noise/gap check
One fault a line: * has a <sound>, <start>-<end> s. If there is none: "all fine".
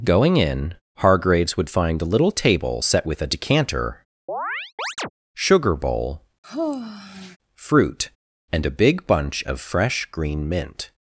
* has a chirp, 4.3-5.1 s
* has a sigh, 6.4-7.4 s